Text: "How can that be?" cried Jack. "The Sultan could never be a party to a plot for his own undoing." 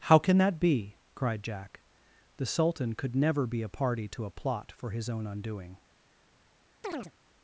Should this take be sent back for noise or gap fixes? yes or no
yes